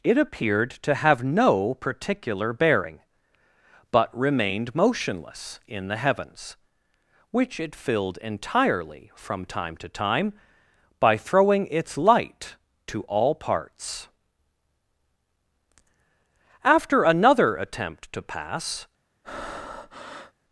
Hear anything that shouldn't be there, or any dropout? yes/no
yes